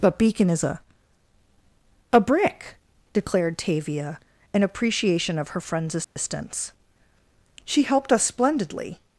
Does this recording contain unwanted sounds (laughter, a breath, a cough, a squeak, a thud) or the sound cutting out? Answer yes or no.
yes